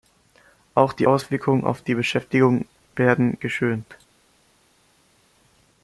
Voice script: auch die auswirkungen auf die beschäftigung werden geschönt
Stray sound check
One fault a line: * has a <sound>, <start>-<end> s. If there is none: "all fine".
all fine